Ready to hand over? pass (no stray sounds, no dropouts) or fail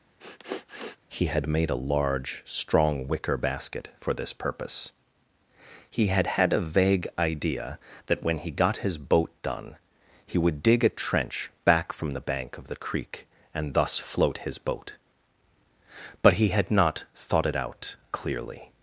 fail